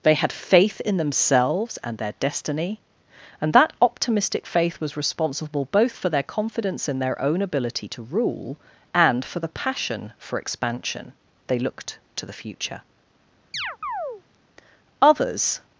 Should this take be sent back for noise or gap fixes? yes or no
yes